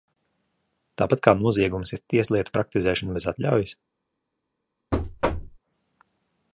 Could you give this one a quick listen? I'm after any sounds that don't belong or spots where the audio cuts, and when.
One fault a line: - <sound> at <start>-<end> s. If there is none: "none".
- thud at 4.9-5.6 s